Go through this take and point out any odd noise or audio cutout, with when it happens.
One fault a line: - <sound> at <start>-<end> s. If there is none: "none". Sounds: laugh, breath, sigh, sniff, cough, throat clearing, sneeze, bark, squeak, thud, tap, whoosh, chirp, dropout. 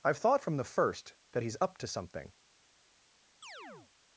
- chirp at 3.4-3.9 s